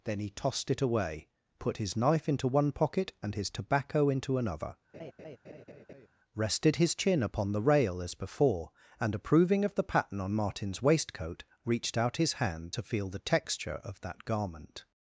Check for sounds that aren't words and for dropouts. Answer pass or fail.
fail